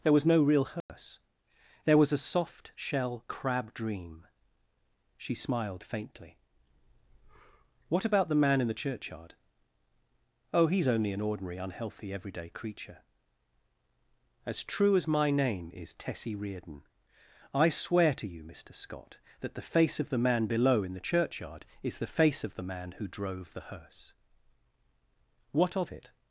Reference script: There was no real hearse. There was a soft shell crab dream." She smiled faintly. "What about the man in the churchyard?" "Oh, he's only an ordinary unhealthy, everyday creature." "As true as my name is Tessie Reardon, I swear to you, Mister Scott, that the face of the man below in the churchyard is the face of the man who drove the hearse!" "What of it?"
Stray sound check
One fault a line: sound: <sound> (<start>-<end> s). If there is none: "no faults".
sound: dropout (0.8-0.9 s)